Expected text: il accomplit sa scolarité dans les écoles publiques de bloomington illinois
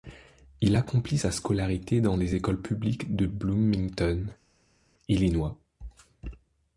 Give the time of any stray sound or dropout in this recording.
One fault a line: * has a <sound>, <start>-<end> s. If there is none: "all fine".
all fine